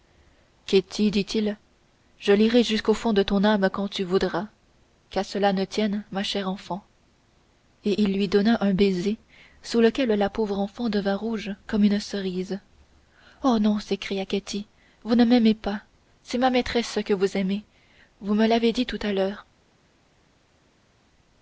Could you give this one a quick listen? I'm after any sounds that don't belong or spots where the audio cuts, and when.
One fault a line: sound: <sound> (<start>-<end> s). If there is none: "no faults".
no faults